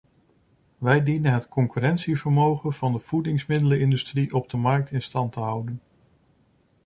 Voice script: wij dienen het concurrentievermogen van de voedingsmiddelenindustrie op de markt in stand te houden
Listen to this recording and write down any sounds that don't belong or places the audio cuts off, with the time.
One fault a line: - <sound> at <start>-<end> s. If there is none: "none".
none